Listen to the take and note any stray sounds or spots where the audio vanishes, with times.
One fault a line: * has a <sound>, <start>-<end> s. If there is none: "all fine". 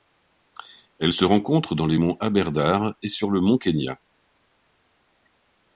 all fine